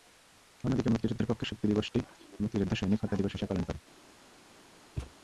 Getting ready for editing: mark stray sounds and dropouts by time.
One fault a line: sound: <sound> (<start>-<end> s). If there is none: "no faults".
sound: thud (5.0-5.1 s)